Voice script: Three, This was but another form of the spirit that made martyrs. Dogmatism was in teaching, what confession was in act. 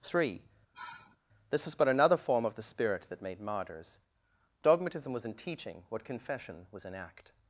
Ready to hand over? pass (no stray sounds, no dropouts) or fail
fail